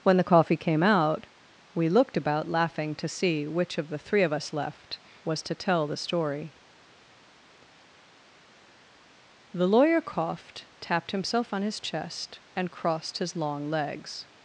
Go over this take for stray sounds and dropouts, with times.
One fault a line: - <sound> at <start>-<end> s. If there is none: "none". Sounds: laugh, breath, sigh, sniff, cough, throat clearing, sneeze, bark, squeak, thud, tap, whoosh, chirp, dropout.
none